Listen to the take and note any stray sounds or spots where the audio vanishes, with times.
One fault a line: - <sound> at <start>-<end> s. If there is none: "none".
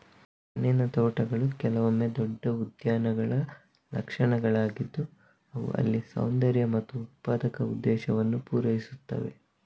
none